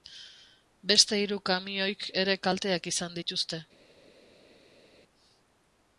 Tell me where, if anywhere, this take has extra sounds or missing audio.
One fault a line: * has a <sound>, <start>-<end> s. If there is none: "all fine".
all fine